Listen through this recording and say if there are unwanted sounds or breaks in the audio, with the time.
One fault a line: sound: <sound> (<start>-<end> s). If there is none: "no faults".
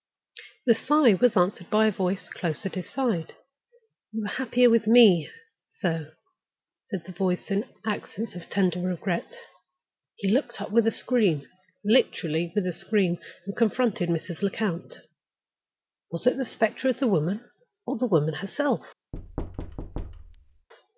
sound: thud (19.1-20.7 s)